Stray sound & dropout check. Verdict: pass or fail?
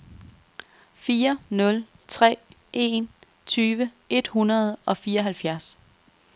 pass